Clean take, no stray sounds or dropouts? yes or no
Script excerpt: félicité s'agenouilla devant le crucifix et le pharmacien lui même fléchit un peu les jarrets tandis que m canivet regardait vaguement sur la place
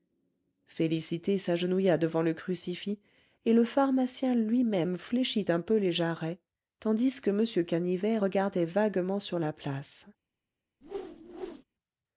no